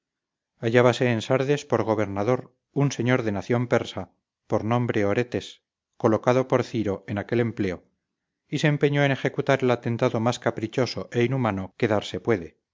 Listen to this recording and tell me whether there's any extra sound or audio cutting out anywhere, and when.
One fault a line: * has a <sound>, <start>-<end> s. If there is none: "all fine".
all fine